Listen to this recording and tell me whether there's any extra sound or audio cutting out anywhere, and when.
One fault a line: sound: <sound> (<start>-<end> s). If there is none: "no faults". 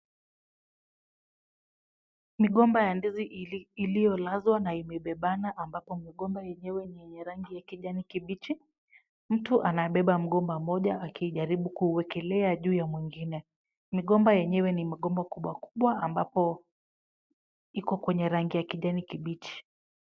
no faults